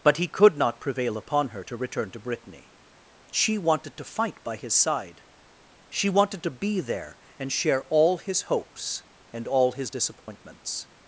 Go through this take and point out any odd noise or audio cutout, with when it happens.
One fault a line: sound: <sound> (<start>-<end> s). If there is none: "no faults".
sound: dropout (10.2-10.3 s)